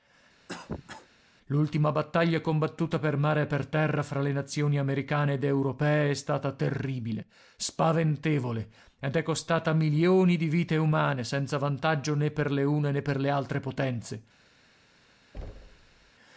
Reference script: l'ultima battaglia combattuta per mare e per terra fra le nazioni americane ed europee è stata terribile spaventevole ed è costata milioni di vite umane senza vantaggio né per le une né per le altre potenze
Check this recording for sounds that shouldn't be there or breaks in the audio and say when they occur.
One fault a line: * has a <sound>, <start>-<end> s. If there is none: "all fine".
* has a cough, 0.5-1.1 s
* has a thud, 15.3-16.1 s